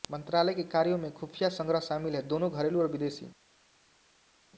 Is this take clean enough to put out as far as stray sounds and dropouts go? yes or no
yes